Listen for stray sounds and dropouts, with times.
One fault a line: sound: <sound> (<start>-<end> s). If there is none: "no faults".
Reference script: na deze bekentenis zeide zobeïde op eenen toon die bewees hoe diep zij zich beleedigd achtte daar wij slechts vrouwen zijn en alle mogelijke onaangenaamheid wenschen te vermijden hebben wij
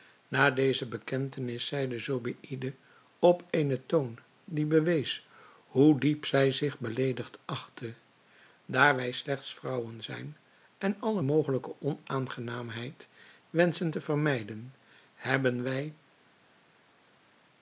no faults